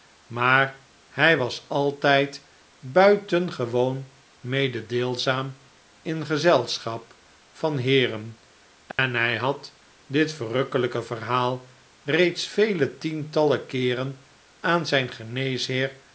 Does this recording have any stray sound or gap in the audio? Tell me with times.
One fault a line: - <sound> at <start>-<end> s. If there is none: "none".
- dropout at 8.9-9.0 s